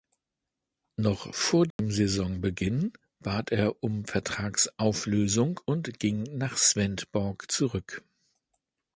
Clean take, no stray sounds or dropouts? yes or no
no